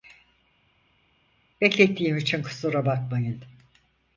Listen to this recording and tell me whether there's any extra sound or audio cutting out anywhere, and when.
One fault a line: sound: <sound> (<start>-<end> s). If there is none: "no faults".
no faults